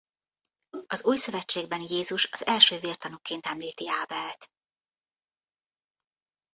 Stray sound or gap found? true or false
false